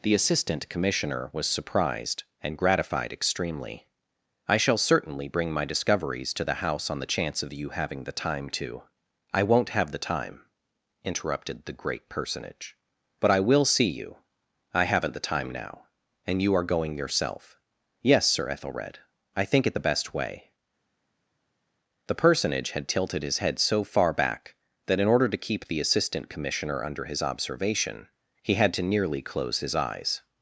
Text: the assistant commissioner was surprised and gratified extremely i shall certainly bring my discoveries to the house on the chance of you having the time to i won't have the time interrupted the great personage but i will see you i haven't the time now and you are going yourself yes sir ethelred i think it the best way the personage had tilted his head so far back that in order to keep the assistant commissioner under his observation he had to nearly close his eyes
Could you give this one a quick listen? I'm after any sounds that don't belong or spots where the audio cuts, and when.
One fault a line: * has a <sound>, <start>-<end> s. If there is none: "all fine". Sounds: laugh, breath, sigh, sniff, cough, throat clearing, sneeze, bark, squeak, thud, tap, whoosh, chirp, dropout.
all fine